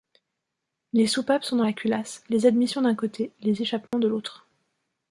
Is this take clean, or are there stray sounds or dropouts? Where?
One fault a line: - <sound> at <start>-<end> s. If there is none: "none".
- dropout at 3.9-3.9 s